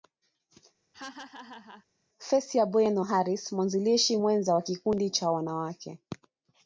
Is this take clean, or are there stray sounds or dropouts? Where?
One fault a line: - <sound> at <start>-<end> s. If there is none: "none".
- laugh at 0.9-1.9 s